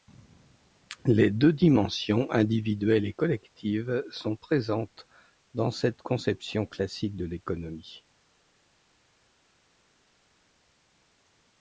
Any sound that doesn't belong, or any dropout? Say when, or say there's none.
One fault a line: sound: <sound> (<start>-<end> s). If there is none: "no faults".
no faults